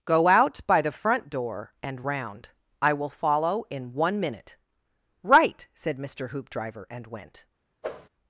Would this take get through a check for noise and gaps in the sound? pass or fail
fail